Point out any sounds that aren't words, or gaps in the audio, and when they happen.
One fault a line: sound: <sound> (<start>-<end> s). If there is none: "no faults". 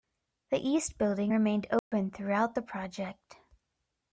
sound: dropout (1.8-1.9 s)